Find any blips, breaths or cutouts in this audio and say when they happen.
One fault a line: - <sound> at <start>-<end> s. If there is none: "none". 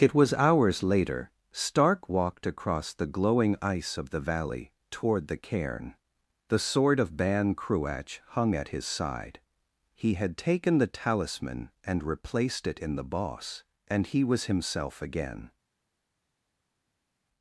none